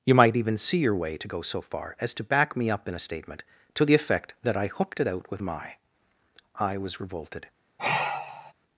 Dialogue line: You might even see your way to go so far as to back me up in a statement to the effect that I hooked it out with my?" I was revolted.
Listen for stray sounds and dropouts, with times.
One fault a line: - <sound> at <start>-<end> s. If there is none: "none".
- sigh at 7.8-8.5 s